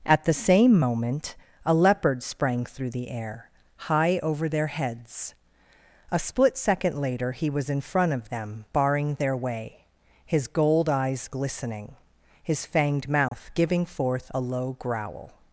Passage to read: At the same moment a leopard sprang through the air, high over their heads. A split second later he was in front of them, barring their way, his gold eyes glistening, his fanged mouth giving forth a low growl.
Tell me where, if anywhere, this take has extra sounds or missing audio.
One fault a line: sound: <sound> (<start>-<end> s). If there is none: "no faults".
sound: dropout (13.3-13.3 s)